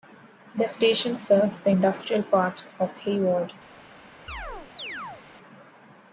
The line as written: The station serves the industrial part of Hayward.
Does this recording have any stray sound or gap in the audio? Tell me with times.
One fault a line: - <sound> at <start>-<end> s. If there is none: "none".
- chirp at 4.3-5.2 s